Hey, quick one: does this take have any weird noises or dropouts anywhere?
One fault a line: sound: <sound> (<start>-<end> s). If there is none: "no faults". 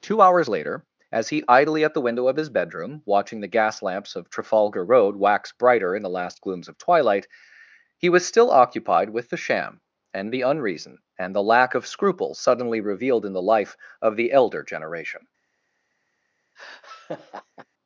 sound: laugh (16.6-17.7 s)